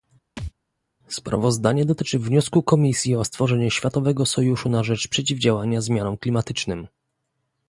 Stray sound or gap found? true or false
true